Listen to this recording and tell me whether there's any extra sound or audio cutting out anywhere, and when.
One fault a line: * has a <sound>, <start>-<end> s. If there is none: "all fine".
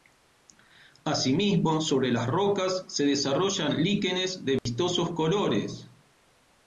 * has a dropout, 4.6-4.7 s